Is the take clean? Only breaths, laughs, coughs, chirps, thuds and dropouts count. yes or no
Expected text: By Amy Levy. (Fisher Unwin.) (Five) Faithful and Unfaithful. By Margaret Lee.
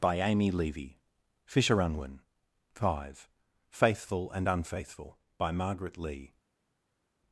yes